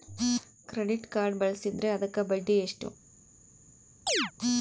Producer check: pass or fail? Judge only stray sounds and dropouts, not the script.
fail